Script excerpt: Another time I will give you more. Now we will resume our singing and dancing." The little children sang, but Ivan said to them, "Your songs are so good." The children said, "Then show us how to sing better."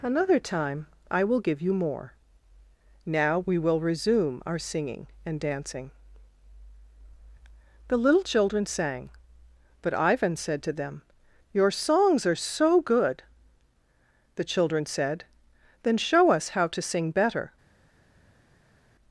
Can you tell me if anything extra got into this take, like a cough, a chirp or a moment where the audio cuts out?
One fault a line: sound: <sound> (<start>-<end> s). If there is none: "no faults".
no faults